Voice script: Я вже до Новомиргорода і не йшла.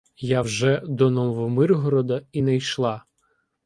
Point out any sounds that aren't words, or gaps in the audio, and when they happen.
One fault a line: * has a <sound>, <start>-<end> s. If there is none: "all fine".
all fine